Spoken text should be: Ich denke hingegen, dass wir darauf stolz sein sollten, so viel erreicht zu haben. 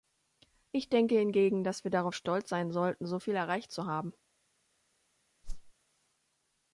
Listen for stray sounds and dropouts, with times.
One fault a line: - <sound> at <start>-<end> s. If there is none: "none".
- whoosh at 5.4-5.7 s